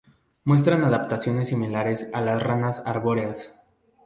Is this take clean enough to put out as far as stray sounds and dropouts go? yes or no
yes